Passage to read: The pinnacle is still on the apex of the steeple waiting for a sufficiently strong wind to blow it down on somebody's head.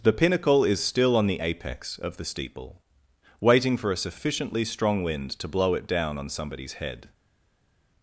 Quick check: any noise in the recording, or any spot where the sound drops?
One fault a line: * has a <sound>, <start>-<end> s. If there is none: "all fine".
all fine